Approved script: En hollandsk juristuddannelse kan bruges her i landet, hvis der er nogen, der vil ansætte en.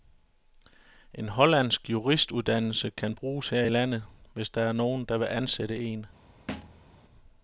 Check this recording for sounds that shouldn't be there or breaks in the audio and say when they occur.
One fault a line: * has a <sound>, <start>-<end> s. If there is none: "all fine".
* has a thud, 6.5-6.9 s